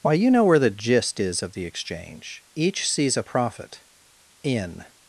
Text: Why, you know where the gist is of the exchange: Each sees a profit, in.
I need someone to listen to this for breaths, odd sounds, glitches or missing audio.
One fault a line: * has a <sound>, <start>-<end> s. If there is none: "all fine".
all fine